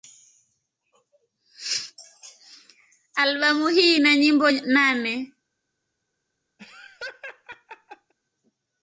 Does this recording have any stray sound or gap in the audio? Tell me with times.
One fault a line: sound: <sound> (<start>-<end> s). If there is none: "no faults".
sound: laugh (6.6-8.1 s)